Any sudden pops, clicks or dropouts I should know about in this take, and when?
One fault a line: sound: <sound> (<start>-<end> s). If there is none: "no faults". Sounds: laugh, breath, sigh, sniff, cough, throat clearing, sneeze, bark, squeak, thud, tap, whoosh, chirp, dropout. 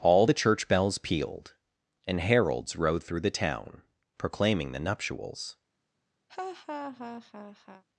sound: laugh (6.3-7.8 s)